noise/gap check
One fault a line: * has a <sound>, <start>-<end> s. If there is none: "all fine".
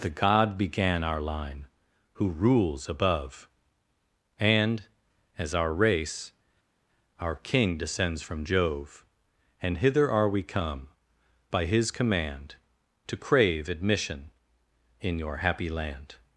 all fine